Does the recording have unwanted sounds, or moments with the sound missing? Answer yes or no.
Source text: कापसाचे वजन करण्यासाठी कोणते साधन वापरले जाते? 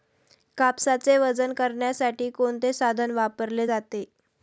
no